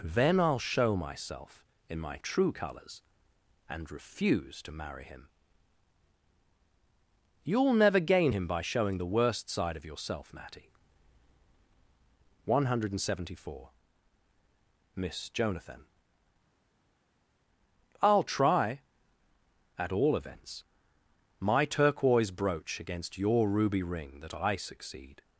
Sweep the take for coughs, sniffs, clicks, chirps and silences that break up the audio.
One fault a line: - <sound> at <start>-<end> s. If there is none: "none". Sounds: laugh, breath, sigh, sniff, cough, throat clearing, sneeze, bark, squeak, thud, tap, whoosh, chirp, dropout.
none